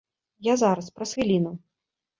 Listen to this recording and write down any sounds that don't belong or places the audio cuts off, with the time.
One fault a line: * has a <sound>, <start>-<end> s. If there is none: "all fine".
all fine